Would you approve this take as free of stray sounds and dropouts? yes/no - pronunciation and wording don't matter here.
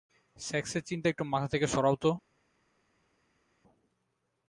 yes